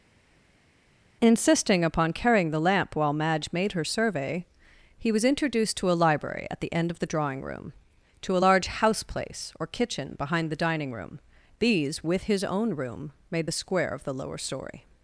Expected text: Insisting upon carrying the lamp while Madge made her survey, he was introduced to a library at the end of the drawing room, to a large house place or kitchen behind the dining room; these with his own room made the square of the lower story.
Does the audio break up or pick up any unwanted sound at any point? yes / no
no